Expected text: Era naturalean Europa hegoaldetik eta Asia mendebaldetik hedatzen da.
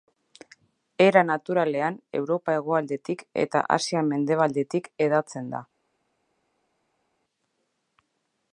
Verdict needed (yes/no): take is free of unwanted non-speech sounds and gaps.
yes